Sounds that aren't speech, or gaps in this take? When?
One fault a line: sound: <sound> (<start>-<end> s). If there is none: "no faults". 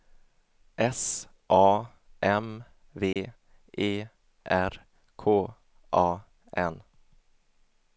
sound: dropout (3.1-3.2 s)